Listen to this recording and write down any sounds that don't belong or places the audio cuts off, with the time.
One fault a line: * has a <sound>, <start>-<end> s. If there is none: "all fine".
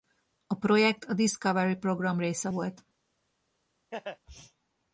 * has a laugh, 3.9-4.2 s